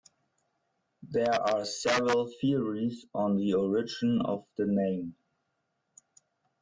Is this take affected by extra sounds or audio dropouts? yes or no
no